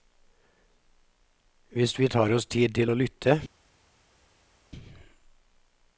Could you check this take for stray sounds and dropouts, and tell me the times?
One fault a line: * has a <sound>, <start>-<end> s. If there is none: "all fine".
all fine